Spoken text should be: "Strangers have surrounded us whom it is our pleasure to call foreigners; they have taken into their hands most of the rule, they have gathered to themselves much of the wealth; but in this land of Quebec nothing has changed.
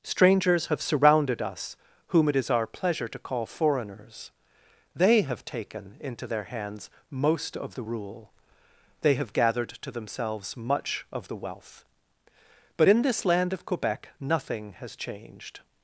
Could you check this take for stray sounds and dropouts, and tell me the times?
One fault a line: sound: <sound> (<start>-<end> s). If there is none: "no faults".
no faults